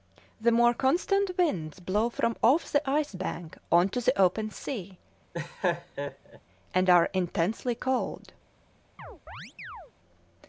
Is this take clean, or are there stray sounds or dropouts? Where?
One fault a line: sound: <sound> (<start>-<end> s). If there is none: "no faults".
sound: laugh (5.3-6.4 s)
sound: chirp (9.0-9.9 s)